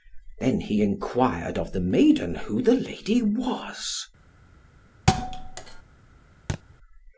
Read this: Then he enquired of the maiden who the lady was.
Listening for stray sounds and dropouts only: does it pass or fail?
fail